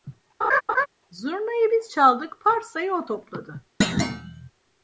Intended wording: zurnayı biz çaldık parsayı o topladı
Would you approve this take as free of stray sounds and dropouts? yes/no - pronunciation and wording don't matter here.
no